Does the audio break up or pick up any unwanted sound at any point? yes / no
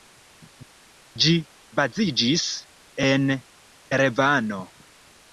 no